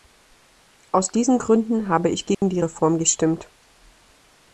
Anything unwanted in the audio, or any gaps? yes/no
yes